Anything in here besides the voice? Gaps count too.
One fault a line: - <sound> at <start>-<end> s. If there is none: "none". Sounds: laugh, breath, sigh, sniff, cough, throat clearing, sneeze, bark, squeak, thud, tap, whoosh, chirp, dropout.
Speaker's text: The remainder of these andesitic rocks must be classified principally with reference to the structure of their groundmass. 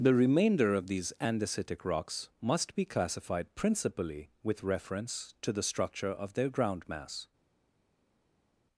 none